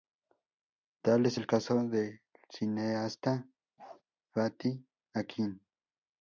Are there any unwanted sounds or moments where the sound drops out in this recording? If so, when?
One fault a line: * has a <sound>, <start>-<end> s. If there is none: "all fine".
* has a bark, 3.8-4.0 s